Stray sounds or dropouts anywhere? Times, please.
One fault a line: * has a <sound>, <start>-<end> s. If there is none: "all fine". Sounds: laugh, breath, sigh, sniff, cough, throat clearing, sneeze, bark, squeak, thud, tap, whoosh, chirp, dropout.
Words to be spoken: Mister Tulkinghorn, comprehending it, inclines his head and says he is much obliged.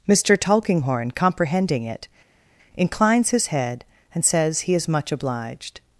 all fine